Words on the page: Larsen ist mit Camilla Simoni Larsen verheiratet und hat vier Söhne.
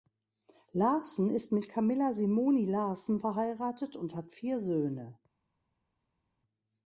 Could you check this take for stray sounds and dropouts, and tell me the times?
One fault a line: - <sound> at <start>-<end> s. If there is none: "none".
none